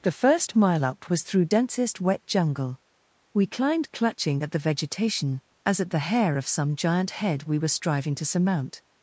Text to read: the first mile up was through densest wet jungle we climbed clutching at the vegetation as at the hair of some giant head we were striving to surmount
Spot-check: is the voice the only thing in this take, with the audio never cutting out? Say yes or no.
yes